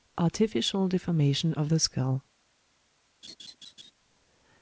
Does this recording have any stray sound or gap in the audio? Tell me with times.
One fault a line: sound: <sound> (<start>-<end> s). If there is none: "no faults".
sound: laugh (3.2-3.9 s)